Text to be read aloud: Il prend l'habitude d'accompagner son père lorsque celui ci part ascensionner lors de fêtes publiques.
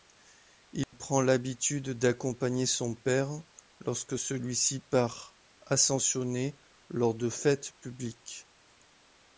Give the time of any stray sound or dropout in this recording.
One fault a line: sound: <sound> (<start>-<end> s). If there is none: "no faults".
sound: dropout (0.8-0.9 s)